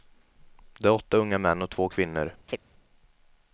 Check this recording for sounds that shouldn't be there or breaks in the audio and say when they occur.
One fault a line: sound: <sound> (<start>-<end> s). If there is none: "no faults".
sound: chirp (2.5-2.6 s)